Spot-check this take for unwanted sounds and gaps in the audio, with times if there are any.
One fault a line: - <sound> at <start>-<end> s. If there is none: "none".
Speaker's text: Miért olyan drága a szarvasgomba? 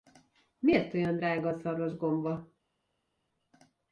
none